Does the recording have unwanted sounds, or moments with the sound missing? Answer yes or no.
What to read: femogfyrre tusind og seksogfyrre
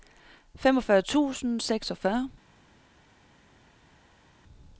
no